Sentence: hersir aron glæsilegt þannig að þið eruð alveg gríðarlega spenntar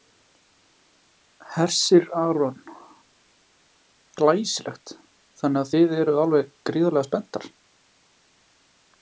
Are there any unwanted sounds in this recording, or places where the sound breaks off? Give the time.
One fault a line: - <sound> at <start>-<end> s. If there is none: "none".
none